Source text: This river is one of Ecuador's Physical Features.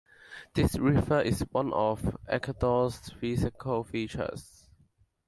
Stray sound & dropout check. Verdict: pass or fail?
pass